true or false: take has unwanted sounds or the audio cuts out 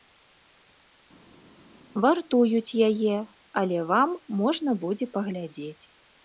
false